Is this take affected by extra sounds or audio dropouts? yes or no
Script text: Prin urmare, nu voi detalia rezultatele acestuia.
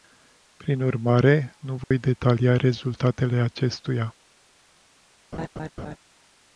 yes